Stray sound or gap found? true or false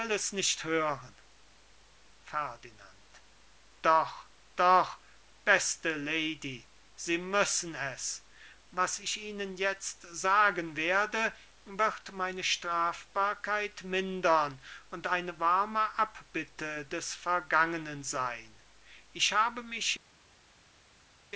false